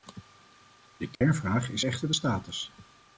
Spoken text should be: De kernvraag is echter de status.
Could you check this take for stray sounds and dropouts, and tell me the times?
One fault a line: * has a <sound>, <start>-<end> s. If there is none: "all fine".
* has a dropout, 1.1-1.2 s